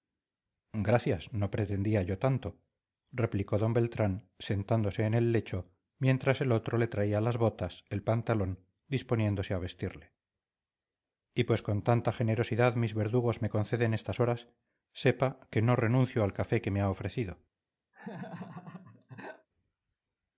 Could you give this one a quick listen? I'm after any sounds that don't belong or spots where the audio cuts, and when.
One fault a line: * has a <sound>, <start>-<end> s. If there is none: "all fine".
* has a laugh, 17.9-19.5 s